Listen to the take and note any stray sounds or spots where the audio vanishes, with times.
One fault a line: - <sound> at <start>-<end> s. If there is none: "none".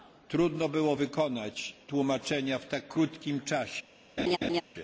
- laugh at 4.2-4.6 s